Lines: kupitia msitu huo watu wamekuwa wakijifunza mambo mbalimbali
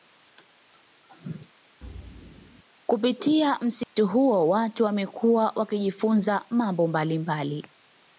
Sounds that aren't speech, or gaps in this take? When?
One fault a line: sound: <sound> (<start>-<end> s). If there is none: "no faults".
sound: thud (1.8-2.6 s)
sound: dropout (3.8-4.0 s)